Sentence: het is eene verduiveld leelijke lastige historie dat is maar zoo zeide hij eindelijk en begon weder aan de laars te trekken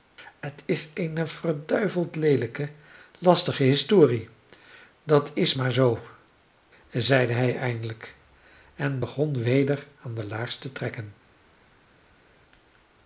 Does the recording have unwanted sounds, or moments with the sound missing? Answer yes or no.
no